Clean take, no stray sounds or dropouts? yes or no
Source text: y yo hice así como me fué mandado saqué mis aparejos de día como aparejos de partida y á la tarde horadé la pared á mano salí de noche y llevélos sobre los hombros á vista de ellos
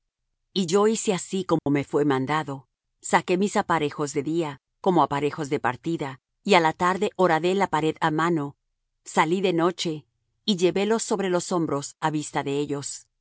no